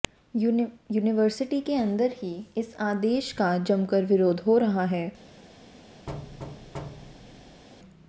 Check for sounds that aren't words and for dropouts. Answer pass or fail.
fail